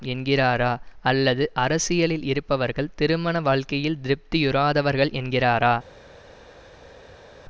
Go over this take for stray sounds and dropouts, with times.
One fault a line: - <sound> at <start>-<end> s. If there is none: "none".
none